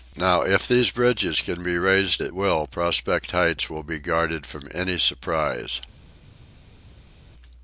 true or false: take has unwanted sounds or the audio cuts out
false